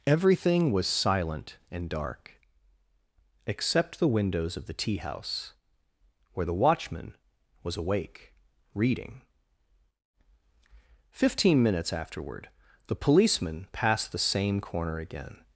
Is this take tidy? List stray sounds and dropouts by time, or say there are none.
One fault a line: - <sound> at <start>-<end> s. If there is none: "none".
none